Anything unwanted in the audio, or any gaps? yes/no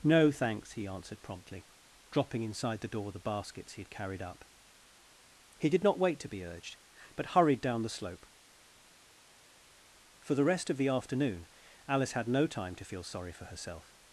no